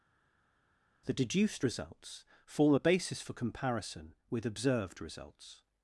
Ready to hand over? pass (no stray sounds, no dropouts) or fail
pass